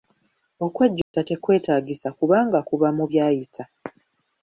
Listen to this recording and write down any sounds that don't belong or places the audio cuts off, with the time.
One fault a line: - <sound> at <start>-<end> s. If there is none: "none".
- dropout at 1.0-1.1 s